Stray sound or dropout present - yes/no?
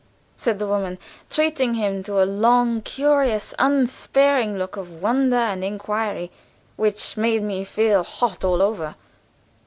no